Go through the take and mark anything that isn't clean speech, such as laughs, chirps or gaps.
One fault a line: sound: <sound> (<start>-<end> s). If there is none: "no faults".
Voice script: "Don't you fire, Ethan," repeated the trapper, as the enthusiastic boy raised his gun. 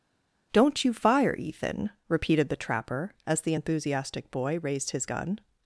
no faults